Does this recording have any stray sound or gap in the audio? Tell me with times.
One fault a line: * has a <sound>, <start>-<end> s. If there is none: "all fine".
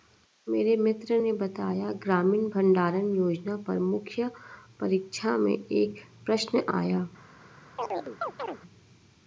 * has a chirp, 7.8-8.6 s